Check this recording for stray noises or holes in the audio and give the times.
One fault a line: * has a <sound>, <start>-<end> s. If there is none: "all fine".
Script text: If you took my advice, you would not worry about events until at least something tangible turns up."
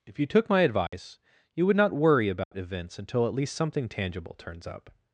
* has a dropout, 0.9-0.9 s
* has a dropout, 2.4-2.5 s